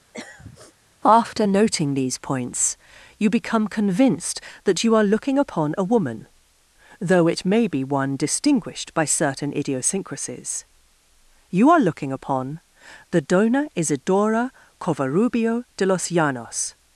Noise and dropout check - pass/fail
fail